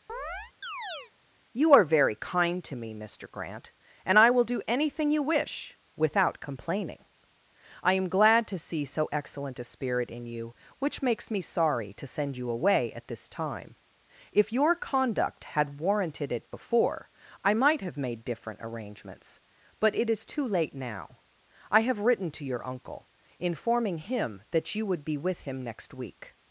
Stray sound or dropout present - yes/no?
yes